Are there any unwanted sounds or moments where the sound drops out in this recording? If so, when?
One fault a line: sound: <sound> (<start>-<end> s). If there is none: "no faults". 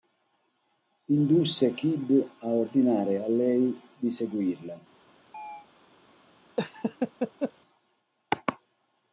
sound: chirp (5.3-5.7 s)
sound: laugh (6.6-7.5 s)